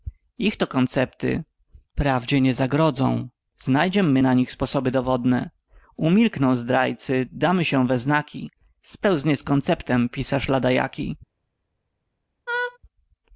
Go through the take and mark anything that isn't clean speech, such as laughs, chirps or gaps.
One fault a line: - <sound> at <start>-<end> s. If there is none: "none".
- laugh at 12.5-12.8 s